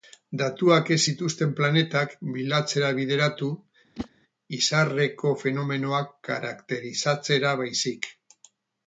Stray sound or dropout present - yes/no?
yes